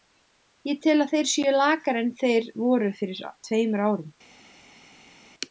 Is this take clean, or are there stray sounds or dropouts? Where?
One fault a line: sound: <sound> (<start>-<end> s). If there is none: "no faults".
no faults